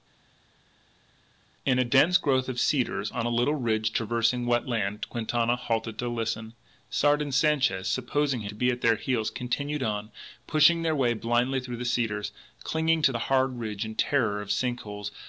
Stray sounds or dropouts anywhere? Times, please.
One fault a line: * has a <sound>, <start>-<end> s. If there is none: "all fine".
all fine